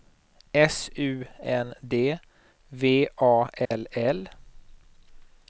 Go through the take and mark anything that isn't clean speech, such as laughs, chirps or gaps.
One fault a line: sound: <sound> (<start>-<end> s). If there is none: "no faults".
sound: dropout (3.7-3.7 s)